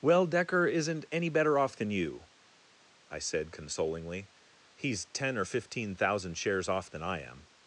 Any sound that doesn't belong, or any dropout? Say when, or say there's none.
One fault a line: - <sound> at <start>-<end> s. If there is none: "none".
none